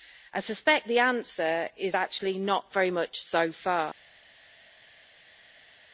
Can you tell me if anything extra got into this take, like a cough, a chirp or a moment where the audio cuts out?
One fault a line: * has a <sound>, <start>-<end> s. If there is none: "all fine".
all fine